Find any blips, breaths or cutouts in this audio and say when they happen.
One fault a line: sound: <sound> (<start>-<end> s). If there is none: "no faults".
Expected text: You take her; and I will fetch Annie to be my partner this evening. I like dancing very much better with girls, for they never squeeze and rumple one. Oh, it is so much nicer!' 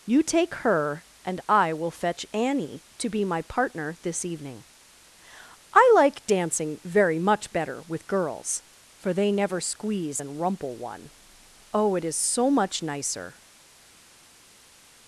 no faults